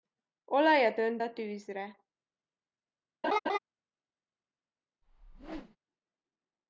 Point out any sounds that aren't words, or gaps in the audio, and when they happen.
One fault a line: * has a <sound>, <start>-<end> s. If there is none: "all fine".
* has a laugh, 3.2-3.6 s
* has a whoosh, 5.0-5.8 s